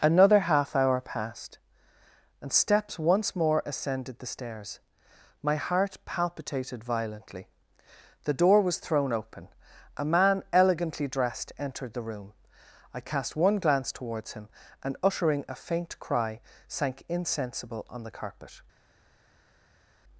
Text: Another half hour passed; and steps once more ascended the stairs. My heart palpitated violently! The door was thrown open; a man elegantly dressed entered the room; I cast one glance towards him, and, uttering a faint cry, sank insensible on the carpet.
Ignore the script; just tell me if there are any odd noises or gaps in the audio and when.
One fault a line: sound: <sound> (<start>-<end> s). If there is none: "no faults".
no faults